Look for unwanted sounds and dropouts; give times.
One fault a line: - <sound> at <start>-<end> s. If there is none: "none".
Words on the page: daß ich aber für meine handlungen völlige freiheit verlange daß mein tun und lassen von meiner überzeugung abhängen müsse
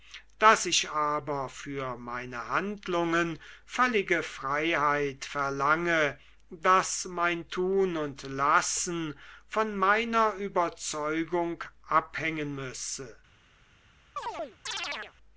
- chirp at 14.2-15.1 s